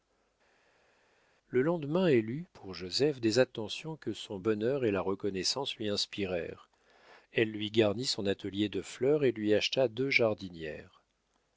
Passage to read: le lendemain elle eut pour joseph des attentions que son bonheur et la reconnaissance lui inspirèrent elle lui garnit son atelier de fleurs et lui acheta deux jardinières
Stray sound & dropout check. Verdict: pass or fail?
pass